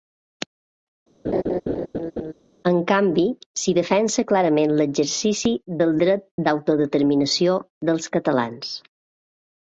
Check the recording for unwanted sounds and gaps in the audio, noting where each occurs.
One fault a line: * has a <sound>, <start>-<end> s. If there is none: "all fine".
* has a laugh, 1.2-2.3 s